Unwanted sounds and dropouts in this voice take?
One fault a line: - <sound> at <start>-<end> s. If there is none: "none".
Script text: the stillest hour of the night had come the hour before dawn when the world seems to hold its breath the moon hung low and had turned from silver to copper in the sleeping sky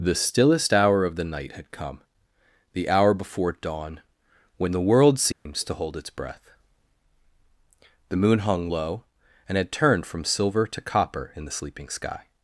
- dropout at 5.3-5.5 s